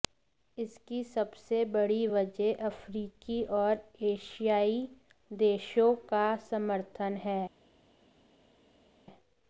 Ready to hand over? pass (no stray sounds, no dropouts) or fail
pass